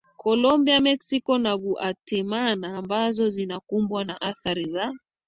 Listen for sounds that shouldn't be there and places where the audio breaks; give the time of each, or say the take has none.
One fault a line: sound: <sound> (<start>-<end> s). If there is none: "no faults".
no faults